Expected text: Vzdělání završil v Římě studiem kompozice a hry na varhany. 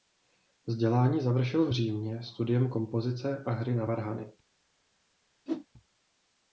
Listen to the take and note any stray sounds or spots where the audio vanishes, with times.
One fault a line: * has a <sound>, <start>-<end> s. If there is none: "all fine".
* has a whoosh, 5.5-5.7 s